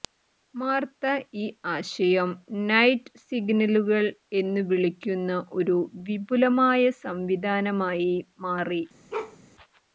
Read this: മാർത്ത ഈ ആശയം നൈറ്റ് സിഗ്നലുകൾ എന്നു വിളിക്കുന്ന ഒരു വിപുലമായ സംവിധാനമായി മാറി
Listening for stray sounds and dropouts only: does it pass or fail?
fail